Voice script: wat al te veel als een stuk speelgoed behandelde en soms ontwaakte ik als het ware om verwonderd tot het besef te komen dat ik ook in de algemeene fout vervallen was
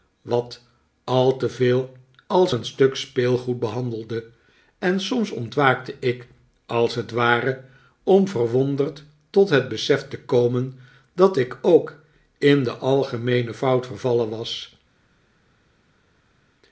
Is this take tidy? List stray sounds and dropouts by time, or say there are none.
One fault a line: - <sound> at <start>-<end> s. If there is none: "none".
none